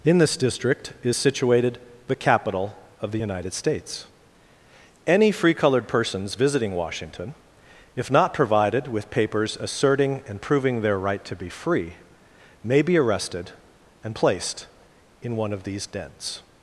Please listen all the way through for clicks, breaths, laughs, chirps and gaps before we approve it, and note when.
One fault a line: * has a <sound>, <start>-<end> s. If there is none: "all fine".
all fine